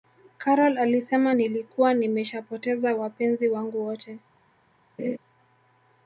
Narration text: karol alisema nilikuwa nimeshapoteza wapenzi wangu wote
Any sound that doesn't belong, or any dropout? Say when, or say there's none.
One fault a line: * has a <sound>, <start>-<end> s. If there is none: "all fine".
* has a laugh, 5.0-5.2 s